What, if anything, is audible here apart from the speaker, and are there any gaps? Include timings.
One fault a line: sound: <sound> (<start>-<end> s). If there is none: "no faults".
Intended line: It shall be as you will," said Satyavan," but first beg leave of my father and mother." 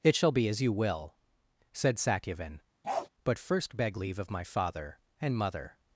sound: bark (2.8-3.1 s)